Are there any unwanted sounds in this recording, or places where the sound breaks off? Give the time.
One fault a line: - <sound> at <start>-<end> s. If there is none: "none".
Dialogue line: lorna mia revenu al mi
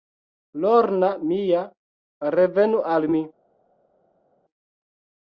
none